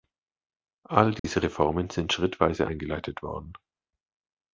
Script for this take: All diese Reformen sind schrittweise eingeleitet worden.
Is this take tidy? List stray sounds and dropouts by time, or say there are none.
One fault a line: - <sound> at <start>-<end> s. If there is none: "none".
- dropout at 1.2-1.2 s